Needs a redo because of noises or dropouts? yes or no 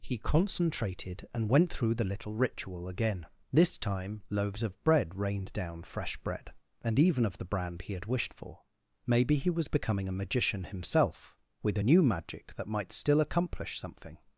no